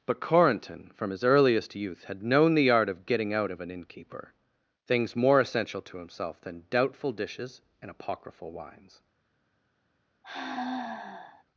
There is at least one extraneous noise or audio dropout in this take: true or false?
true